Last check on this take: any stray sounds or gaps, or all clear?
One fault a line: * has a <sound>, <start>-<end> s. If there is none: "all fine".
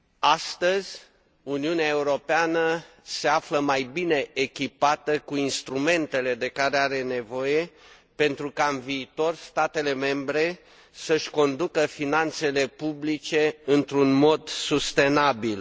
all fine